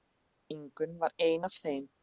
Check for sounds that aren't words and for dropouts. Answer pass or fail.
pass